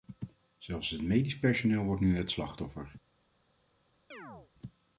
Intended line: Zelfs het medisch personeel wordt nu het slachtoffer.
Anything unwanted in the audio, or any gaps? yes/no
yes